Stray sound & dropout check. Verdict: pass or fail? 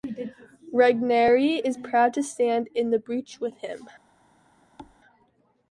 fail